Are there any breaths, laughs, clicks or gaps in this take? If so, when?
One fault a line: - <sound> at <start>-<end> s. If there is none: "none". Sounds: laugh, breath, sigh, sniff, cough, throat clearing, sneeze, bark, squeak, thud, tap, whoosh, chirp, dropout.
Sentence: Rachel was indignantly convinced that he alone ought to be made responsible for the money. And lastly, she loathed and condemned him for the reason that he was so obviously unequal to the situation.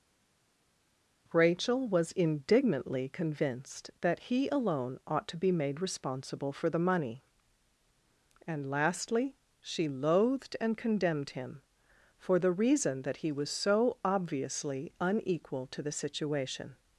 none